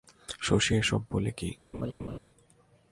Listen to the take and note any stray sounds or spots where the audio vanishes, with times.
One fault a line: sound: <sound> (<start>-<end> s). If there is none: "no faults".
sound: laugh (1.7-2.2 s)